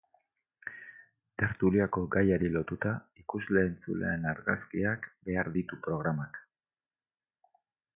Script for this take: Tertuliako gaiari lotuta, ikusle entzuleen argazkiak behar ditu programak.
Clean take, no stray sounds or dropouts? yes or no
yes